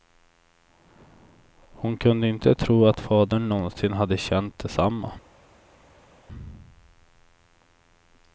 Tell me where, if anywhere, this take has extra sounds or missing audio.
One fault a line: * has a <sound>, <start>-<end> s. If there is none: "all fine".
all fine